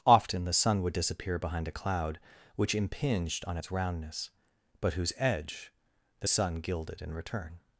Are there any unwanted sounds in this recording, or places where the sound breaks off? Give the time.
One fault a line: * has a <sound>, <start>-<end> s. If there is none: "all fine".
all fine